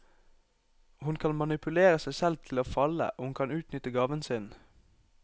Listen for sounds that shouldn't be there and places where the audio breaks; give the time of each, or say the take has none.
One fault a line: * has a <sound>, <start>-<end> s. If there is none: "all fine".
all fine